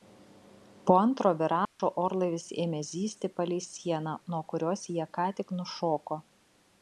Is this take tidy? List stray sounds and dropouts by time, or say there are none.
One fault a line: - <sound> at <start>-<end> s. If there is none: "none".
- dropout at 1.7-1.8 s